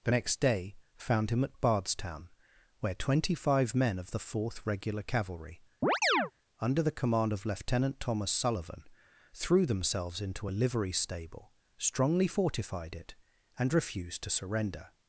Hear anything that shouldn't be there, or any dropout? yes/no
yes